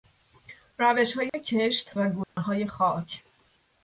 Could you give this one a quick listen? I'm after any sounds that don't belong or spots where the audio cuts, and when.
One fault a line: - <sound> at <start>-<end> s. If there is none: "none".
- dropout at 1.3-1.3 s
- dropout at 2.2-2.4 s